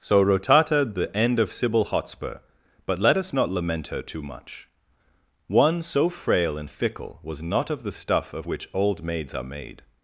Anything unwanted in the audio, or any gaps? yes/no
no